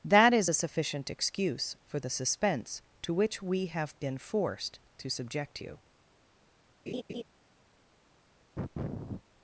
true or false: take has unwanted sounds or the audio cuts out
true